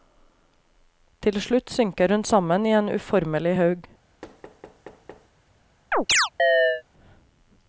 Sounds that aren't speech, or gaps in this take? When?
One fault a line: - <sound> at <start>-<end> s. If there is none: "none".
- thud at 4.2-5.3 s
- chirp at 5.9-6.8 s